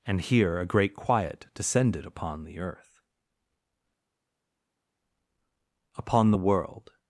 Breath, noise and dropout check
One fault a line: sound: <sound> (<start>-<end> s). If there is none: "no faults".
no faults